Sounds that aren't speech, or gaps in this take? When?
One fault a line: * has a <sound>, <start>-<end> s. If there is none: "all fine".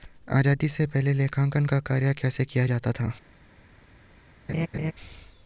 * has a laugh, 4.5-4.9 s